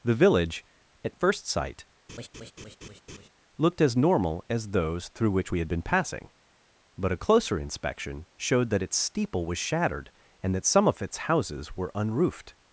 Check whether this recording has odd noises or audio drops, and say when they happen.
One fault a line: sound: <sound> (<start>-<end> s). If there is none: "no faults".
sound: laugh (2.1-3.3 s)